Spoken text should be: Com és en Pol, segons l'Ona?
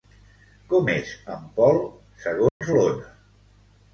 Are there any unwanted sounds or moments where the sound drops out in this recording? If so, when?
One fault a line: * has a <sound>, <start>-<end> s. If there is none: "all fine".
* has a dropout, 2.5-2.6 s